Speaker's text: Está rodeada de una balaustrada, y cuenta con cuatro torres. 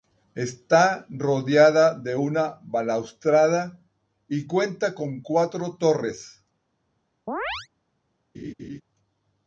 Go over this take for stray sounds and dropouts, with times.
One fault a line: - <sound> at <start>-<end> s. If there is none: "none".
- chirp at 7.3-7.7 s
- laugh at 8.3-8.8 s